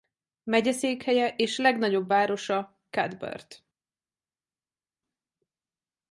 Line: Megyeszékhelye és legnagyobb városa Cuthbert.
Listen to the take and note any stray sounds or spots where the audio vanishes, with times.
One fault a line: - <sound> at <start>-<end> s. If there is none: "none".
none